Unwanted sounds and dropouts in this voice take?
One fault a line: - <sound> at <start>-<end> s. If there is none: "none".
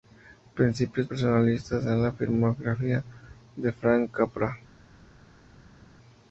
none